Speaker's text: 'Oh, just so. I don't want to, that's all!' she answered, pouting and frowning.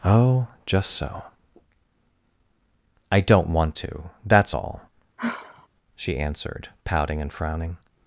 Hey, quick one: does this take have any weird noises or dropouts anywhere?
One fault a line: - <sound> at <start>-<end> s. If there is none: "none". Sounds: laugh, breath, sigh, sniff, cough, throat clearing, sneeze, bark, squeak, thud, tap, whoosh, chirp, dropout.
- sigh at 5.2-5.7 s